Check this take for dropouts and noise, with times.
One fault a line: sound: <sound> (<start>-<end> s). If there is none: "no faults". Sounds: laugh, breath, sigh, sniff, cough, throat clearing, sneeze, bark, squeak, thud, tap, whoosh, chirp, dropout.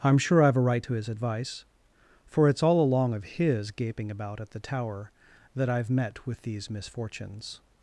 no faults